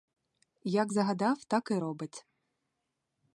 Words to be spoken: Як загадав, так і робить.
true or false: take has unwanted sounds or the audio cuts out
false